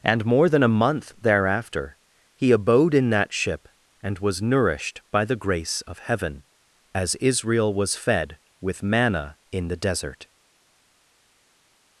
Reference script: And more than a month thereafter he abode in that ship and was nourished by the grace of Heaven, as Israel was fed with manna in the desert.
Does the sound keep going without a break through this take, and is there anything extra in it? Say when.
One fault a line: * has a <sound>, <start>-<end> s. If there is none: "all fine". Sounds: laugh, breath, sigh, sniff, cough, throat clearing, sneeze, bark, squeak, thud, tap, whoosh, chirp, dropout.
all fine